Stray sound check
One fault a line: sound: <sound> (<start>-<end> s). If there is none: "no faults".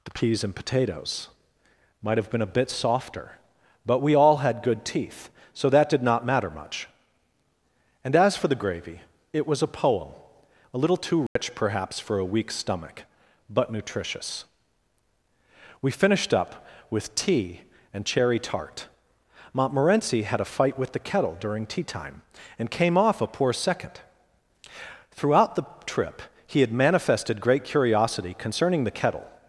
sound: dropout (11.3-11.4 s)